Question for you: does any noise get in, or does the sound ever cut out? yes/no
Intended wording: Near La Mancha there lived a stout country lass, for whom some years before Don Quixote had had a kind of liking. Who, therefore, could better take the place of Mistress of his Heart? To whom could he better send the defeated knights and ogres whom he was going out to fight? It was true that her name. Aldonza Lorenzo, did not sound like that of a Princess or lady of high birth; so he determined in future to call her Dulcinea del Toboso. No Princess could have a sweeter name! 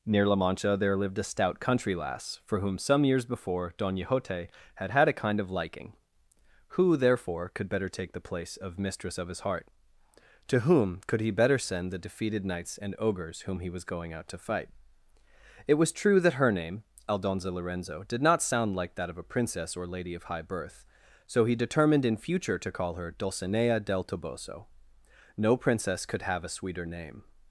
no